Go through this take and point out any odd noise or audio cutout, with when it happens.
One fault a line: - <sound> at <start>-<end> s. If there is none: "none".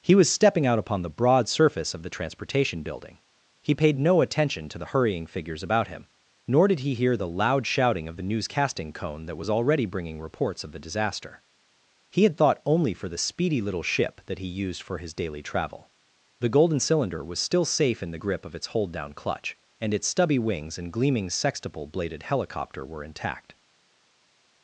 none